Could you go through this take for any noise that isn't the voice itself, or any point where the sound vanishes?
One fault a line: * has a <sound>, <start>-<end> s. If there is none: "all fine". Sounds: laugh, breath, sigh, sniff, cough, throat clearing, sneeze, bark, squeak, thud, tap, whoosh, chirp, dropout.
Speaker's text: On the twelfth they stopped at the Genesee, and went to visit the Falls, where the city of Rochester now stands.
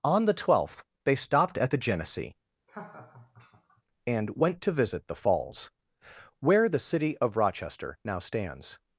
* has a laugh, 2.7-3.8 s